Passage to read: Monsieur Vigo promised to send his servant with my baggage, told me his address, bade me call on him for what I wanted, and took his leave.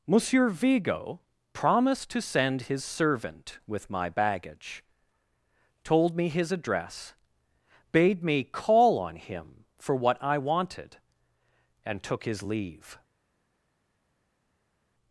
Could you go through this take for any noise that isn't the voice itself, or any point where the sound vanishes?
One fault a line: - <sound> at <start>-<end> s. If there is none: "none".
none